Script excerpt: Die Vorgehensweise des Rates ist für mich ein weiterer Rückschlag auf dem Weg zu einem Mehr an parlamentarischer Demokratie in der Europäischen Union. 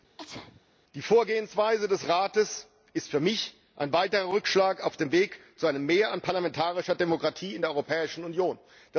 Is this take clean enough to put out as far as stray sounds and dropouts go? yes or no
no